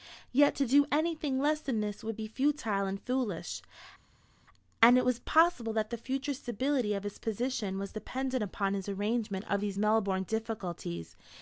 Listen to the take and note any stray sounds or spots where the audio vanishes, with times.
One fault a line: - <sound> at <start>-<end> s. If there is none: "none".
none